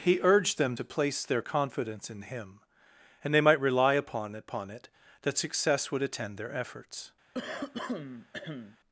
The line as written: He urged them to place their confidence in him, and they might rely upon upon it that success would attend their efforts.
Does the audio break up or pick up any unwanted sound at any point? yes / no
yes